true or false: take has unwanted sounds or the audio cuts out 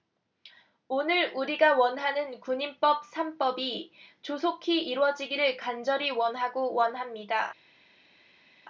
false